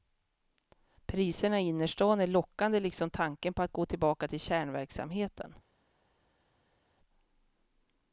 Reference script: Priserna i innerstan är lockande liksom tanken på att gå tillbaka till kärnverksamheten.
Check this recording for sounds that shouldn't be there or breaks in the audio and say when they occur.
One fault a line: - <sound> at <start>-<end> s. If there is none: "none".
none